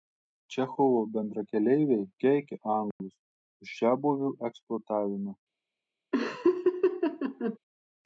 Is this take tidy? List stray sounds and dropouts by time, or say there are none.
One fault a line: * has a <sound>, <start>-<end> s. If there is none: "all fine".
* has a dropout, 2.9-3.0 s
* has a laugh, 6.1-7.6 s